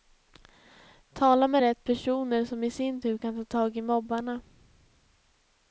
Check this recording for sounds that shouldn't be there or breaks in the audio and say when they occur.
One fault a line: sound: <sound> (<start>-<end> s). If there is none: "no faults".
no faults